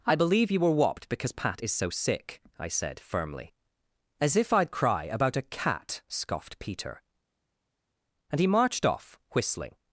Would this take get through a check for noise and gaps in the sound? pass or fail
pass